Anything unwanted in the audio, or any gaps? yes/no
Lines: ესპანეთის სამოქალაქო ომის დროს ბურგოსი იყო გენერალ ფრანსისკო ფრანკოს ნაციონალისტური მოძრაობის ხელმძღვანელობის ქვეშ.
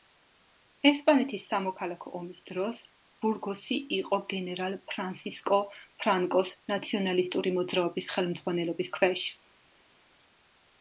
no